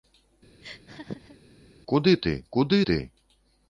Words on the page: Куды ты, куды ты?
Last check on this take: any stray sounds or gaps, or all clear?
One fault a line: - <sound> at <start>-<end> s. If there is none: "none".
- laugh at 0.6-1.4 s